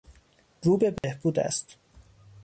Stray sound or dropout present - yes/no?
yes